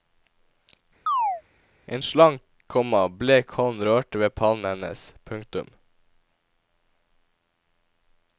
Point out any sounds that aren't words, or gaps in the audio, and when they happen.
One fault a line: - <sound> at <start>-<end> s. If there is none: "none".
- chirp at 1.1-1.4 s